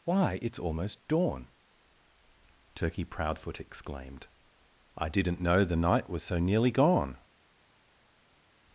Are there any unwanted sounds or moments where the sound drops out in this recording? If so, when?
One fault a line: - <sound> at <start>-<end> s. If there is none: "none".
none